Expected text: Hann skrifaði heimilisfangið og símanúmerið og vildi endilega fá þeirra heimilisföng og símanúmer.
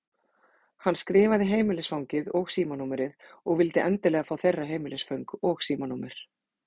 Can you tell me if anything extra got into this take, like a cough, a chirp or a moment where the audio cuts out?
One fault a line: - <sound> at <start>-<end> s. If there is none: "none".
none